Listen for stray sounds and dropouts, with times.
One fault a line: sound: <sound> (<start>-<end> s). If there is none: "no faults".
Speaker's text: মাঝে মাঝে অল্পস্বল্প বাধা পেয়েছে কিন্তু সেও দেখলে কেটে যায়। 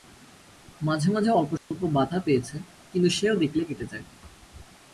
sound: dropout (1.6-1.7 s)